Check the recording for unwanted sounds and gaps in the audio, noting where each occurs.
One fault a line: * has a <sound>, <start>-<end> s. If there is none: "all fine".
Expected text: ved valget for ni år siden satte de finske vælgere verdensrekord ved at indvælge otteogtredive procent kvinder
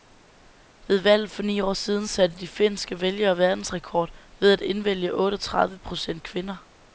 all fine